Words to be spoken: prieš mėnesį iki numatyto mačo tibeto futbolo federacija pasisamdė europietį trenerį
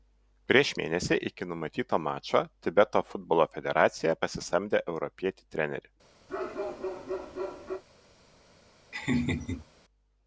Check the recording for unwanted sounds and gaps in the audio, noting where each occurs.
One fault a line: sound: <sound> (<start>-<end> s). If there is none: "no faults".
sound: bark (6.3-7.8 s)
sound: laugh (8.9-9.7 s)